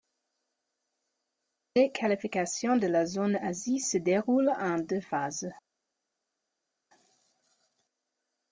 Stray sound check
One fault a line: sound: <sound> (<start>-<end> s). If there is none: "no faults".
no faults